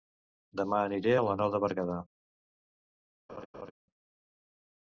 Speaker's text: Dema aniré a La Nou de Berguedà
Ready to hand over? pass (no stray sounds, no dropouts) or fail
fail